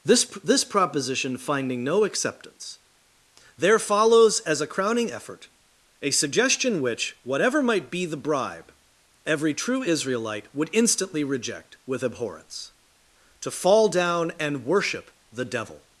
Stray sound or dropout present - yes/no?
no